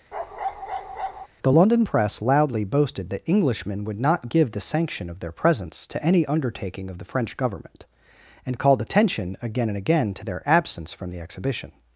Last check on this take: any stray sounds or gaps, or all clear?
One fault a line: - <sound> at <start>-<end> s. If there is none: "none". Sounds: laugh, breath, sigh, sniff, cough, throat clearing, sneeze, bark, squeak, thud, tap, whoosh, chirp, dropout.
- bark at 0.1-1.3 s